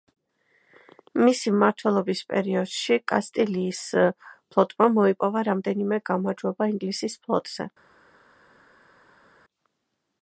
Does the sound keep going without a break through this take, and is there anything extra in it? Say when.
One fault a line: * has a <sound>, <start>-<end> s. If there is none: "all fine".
all fine